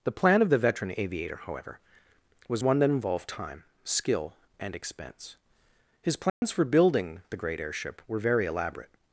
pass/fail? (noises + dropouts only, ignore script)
fail